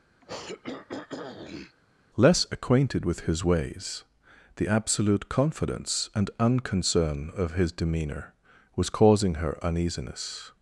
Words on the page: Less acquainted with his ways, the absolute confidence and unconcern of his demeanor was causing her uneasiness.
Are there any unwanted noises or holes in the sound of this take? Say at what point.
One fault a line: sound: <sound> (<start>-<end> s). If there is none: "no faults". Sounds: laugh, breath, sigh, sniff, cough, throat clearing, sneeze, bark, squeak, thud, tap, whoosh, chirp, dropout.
sound: throat clearing (0.2-1.8 s)